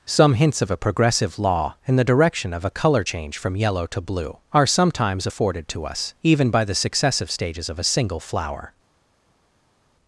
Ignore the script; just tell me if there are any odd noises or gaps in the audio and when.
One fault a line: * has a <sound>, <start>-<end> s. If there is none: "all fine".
all fine